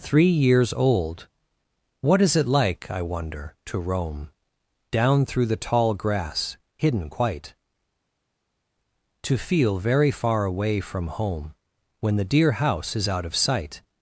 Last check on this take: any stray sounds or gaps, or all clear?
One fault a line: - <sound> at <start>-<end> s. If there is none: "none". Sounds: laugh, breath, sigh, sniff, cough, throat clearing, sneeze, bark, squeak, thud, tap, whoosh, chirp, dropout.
none